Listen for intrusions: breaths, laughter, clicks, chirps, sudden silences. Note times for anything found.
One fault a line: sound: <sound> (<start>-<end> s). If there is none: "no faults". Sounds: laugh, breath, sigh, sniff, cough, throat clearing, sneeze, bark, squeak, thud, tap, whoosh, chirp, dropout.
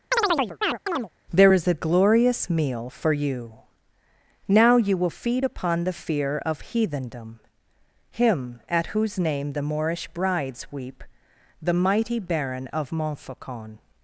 sound: chirp (0.1-1.1 s)